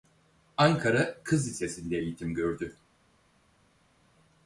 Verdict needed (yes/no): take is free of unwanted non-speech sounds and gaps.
yes